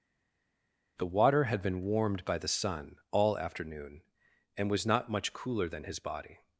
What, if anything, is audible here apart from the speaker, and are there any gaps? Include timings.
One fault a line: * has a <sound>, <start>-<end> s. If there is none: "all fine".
all fine